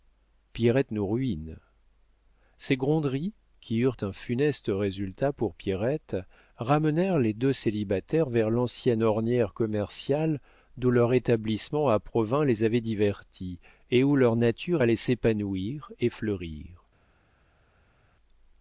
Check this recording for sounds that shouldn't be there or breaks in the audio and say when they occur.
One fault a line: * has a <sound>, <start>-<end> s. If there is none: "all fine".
all fine